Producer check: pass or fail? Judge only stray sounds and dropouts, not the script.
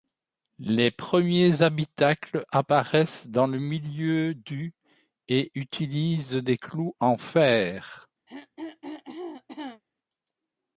fail